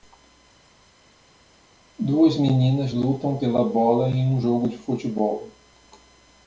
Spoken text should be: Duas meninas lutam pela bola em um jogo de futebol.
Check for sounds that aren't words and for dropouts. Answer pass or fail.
pass